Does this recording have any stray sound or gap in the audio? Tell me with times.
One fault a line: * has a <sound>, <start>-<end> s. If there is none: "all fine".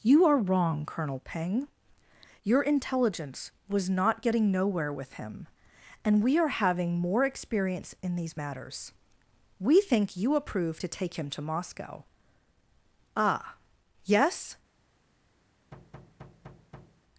* has a thud, 15.7-17.0 s